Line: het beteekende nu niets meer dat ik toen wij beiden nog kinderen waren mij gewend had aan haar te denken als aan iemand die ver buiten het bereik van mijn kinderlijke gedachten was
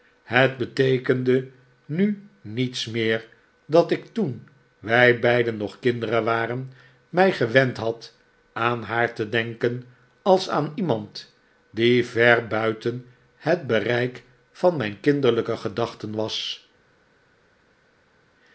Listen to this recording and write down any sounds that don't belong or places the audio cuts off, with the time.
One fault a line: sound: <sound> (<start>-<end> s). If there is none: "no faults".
no faults